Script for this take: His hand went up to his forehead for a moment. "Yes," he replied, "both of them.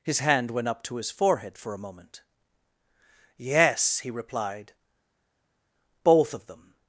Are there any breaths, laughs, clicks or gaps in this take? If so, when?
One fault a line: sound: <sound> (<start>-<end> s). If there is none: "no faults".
no faults